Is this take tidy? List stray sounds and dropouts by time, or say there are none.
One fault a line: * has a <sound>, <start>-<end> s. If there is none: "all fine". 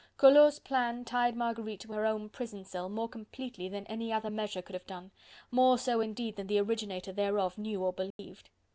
* has a dropout, 8.1-8.2 s